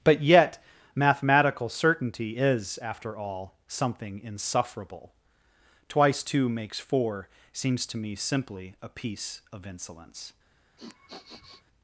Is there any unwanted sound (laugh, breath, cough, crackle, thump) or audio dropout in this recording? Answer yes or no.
yes